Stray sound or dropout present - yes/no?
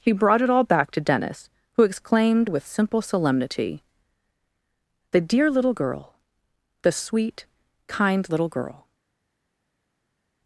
no